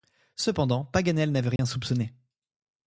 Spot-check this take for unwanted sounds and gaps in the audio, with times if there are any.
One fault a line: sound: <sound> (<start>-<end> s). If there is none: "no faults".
sound: dropout (1.6-1.6 s)